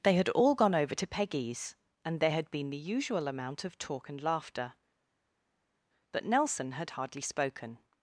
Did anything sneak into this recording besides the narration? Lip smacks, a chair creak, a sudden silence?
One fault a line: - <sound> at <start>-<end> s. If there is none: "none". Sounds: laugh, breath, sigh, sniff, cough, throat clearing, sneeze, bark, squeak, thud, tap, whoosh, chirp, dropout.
none